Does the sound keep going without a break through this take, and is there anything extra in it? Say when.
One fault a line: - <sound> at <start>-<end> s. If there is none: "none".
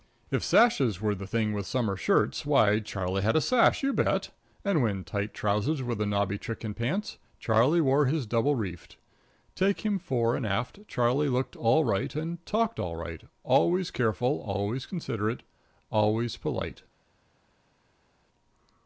none